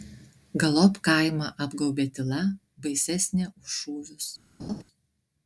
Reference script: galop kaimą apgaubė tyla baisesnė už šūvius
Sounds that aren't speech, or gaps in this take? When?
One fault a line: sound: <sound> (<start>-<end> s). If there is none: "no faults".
sound: laugh (4.6-4.8 s)